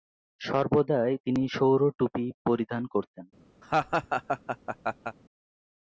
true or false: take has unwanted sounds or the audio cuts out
true